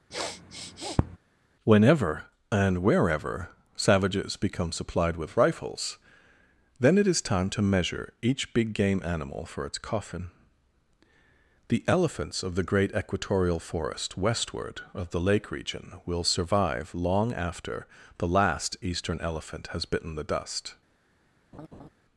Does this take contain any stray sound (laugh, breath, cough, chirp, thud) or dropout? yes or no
yes